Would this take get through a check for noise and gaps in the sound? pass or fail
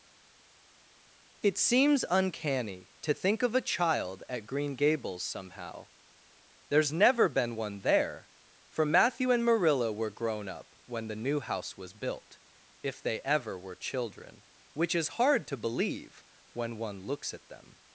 pass